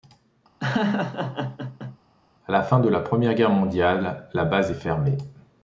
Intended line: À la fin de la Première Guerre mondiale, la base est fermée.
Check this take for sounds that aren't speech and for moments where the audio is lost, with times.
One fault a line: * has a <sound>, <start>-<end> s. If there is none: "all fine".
* has a laugh, 0.6-2.0 s